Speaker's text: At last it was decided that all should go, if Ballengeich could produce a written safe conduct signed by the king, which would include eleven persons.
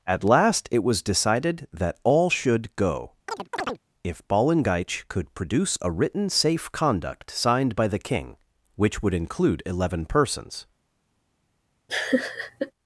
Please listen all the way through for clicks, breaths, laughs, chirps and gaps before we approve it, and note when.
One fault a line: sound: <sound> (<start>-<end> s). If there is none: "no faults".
sound: chirp (3.3-3.8 s)
sound: laugh (11.9-12.7 s)